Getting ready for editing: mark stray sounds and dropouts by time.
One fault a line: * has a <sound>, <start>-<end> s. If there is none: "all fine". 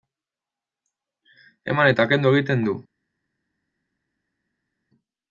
all fine